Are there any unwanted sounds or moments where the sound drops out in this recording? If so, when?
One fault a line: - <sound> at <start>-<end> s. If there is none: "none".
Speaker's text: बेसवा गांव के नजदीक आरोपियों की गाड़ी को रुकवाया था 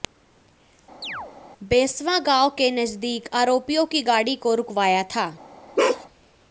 - chirp at 1.0-1.3 s
- bark at 5.8-6.1 s